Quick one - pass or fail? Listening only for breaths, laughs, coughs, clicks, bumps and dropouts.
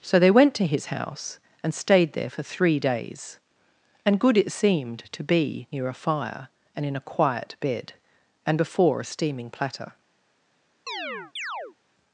fail